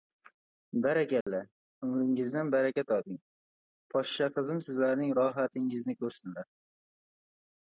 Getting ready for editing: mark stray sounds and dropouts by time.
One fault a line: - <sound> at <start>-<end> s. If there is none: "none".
- dropout at 1.2-1.3 s